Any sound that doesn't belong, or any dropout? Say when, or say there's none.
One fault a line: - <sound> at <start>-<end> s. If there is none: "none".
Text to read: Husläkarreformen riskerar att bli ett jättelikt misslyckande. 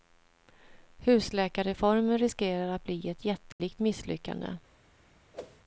- dropout at 3.5-3.6 s
- whoosh at 5.3-5.6 s